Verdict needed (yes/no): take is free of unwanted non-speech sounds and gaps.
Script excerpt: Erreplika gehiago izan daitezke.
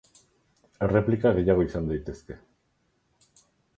yes